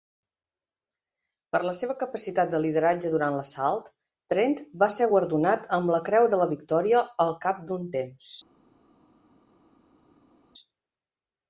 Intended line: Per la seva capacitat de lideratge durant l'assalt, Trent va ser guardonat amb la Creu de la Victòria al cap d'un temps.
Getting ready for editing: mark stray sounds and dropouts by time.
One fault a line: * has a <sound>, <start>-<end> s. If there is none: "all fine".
all fine